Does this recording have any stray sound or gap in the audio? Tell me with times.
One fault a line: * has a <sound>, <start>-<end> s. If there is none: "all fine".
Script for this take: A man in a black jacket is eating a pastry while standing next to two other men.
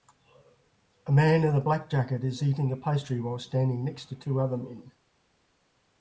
all fine